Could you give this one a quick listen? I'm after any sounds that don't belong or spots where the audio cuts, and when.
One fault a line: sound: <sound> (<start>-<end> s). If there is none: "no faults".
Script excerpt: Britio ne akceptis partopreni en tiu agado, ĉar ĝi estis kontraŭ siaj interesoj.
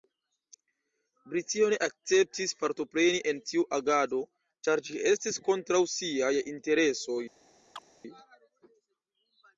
sound: chirp (7.8-7.8 s)